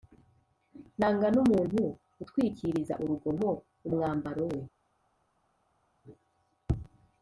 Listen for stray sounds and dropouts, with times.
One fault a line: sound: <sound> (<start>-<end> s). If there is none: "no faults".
no faults